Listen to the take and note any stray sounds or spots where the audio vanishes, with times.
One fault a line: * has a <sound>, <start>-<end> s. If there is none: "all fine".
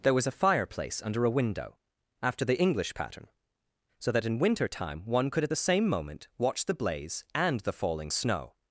all fine